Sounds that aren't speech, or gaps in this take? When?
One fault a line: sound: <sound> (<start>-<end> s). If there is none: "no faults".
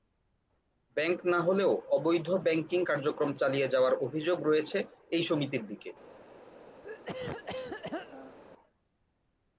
sound: throat clearing (6.8-8.4 s)